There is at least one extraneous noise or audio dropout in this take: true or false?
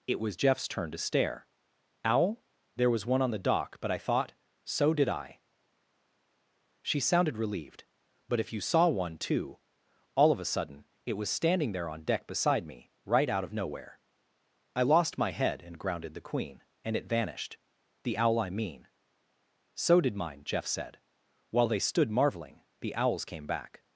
false